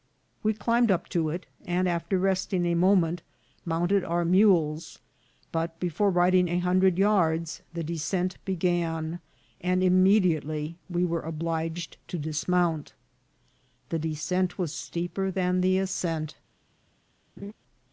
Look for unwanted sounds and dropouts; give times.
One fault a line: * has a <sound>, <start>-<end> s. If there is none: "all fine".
* has a laugh, 17.4-17.5 s